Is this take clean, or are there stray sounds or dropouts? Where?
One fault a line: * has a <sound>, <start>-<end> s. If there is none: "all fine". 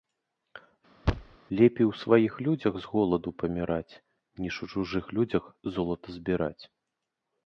* has a thud, 1.0-1.4 s